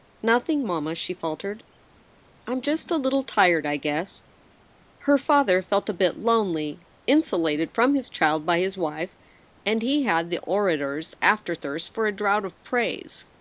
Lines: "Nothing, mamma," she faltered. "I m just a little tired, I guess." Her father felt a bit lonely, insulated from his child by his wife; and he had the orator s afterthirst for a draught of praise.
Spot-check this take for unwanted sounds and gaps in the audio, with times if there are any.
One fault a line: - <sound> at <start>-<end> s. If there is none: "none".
none